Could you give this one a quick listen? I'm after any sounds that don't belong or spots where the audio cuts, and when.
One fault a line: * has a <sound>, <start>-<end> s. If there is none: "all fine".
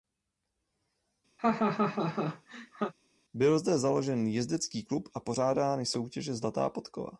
* has a laugh, 1.4-2.9 s